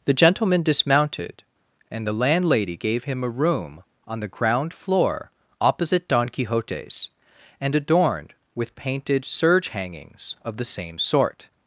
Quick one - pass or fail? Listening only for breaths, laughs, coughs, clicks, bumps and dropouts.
pass